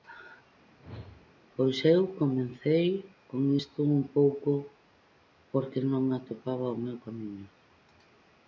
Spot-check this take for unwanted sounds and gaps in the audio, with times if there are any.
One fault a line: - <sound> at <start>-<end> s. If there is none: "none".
- whoosh at 0.7-1.3 s